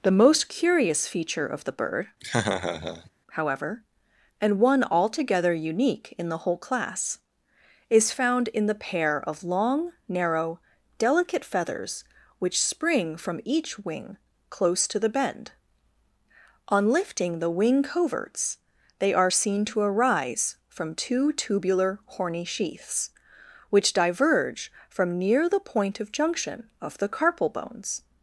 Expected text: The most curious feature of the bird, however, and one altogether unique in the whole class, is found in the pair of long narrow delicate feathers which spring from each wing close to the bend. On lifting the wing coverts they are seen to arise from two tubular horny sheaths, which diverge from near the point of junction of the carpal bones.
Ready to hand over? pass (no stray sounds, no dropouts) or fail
fail